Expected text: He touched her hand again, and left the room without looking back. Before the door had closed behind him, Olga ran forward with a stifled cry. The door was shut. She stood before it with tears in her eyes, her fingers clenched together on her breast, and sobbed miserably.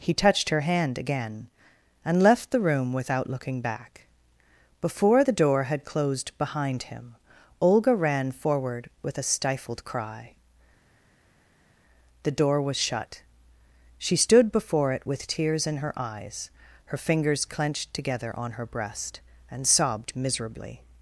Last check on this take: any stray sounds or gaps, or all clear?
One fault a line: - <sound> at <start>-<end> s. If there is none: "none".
none